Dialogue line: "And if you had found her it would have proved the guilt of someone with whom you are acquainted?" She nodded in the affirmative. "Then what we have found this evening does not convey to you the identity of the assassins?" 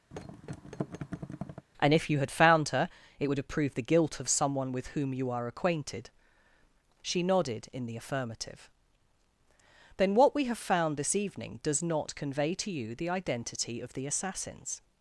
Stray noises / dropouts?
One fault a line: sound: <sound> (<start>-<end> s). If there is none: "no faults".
sound: thud (0.1-1.7 s)